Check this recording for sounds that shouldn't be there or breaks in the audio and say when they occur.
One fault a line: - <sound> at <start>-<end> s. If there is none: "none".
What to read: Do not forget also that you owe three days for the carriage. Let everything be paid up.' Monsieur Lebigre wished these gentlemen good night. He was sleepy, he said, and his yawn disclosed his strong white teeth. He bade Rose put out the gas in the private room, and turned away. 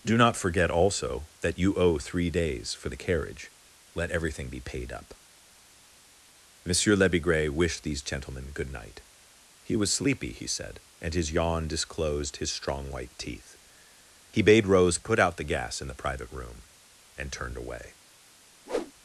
- whoosh at 18.7-18.9 s